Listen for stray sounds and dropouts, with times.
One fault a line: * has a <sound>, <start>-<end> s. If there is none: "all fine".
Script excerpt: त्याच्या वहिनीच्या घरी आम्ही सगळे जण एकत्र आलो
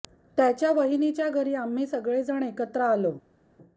all fine